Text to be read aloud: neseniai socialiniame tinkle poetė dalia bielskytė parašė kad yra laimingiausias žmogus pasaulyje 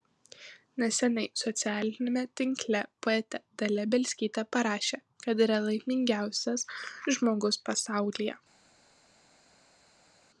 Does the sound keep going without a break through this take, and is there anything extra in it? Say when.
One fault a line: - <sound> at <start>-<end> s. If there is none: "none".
none